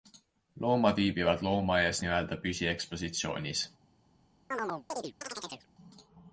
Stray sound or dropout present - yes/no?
yes